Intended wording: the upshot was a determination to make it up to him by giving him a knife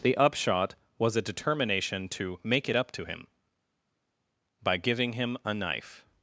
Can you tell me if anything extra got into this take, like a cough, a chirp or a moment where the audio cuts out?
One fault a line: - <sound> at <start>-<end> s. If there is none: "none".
none